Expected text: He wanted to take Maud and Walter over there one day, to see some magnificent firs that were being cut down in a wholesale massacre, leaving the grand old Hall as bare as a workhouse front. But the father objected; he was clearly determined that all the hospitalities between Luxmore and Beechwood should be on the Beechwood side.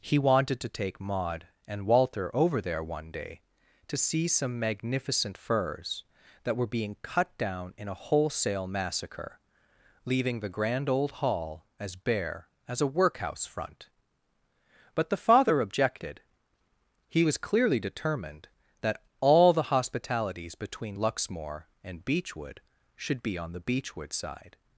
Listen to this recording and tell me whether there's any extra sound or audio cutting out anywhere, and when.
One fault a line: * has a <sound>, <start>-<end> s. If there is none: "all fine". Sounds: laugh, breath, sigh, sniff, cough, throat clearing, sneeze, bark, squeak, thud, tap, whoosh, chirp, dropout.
all fine